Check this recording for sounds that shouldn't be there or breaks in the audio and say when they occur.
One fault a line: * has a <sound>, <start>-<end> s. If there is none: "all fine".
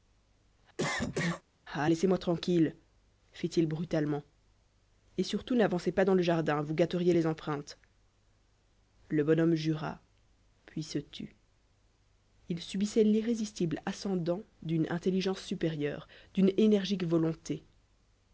* has a cough, 0.8-1.4 s